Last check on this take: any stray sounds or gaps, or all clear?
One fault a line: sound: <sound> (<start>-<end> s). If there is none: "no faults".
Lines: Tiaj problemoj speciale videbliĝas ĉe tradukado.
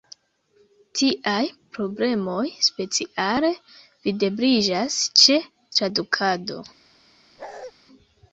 sound: bark (7.4-7.7 s)